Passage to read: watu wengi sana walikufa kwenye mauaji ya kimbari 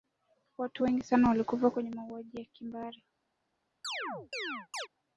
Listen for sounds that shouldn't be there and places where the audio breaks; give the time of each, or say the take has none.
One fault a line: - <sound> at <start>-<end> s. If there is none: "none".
- chirp at 3.8-4.9 s